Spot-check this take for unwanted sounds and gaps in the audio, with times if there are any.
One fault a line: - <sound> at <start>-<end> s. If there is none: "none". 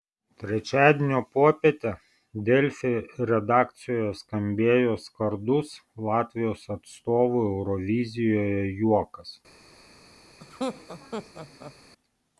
- laugh at 10.4-11.7 s